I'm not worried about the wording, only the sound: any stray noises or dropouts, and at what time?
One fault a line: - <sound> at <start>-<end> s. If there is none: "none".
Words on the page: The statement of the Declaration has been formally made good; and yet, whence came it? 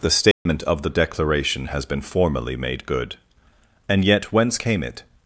- dropout at 0.3-0.5 s